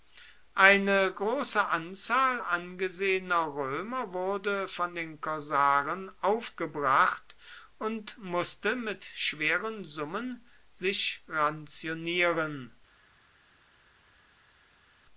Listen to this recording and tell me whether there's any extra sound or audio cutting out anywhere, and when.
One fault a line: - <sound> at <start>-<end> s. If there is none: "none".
none